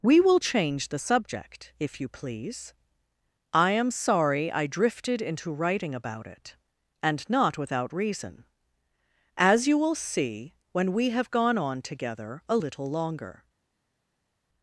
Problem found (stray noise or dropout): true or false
false